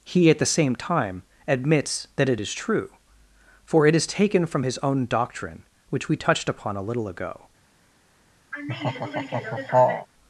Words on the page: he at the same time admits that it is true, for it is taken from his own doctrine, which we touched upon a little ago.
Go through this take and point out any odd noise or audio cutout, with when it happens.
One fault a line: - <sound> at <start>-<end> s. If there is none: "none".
- laugh at 8.5-10.1 s